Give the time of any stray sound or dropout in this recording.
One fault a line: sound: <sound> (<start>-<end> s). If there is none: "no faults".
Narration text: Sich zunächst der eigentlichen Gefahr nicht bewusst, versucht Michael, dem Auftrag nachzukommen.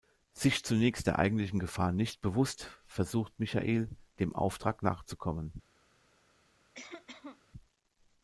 sound: cough (6.7-7.4 s)